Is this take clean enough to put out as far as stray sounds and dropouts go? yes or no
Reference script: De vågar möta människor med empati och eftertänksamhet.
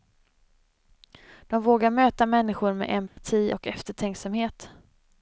no